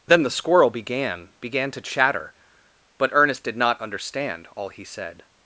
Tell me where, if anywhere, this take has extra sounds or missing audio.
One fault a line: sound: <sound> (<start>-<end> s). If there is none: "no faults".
no faults